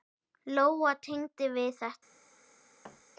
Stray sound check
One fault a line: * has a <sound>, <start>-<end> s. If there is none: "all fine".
* has a thud, 2.8-3.0 s